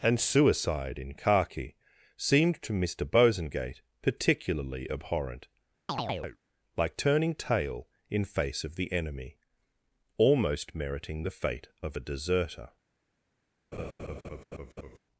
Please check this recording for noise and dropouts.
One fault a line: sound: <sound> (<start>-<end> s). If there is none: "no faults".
sound: chirp (5.9-6.4 s)
sound: laugh (13.7-15.0 s)